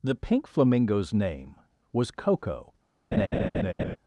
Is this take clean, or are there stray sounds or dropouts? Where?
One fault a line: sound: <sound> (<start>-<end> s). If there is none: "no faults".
sound: laugh (3.1-4.0 s)